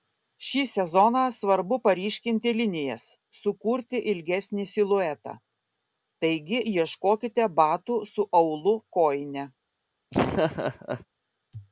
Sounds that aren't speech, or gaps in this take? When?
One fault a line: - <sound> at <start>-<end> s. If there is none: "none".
- laugh at 10.1-11.1 s